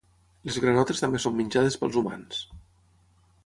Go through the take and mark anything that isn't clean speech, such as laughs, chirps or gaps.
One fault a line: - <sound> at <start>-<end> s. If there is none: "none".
none